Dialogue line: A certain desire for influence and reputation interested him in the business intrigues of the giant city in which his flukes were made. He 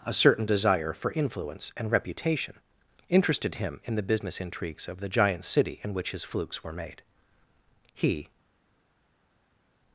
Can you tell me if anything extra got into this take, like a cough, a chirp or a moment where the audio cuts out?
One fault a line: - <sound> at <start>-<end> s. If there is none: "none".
none